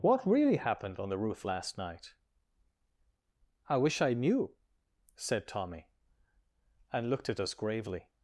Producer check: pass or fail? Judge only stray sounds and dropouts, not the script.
pass